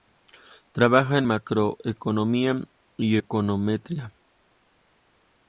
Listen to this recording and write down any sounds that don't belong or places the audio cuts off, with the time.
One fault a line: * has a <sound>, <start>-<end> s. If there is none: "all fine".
all fine